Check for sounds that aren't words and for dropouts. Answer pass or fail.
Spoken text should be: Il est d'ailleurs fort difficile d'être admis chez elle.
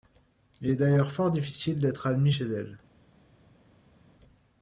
pass